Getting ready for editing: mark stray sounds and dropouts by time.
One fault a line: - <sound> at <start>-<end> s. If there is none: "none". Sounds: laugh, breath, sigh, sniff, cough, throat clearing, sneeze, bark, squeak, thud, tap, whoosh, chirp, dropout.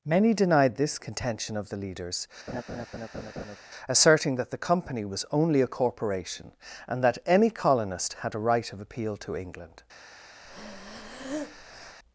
- laugh at 2.5-3.6 s
- breath at 10.4-12.0 s